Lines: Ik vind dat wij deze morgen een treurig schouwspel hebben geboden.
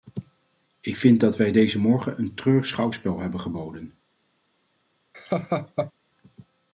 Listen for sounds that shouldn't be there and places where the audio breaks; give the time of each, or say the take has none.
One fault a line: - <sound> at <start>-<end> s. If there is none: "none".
- laugh at 5.1-5.9 s